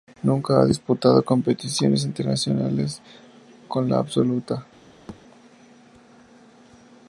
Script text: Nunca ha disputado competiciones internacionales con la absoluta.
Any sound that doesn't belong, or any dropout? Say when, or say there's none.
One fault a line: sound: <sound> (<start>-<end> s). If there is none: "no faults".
sound: thud (5.1-5.2 s)